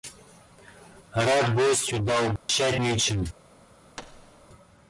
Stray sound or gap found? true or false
true